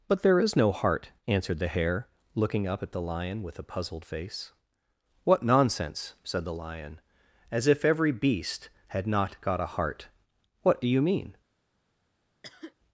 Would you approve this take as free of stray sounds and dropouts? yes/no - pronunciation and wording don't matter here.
no